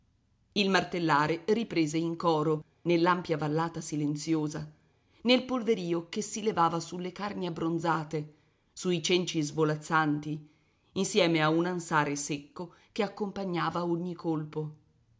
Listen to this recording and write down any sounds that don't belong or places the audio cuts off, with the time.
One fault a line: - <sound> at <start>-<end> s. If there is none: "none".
none